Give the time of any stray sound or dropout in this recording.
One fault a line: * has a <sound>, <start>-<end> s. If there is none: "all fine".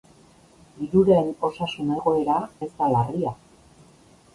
all fine